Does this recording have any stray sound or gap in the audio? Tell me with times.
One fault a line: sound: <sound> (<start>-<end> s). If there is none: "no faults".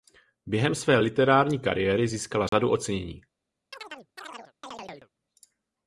sound: dropout (2.5-2.5 s)
sound: chirp (3.7-5.1 s)